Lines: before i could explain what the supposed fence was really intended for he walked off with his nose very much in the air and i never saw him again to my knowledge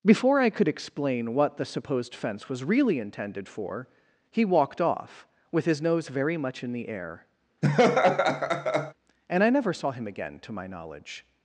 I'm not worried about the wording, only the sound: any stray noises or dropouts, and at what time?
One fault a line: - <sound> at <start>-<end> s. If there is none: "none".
- laugh at 7.6-8.9 s